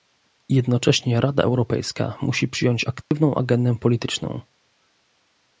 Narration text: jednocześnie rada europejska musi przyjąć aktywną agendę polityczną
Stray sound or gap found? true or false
true